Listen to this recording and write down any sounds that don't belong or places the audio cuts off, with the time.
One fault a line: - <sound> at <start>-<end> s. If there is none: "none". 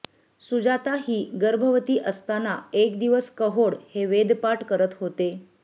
none